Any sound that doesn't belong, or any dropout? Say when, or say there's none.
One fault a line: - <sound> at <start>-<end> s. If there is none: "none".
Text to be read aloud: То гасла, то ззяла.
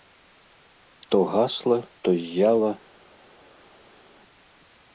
none